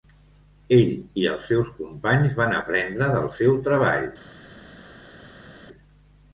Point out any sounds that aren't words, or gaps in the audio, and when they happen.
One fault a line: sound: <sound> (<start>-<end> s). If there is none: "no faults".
no faults